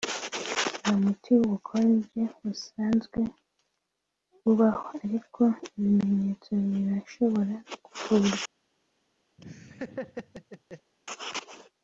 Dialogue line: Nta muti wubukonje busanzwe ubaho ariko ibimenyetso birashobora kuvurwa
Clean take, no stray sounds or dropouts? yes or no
no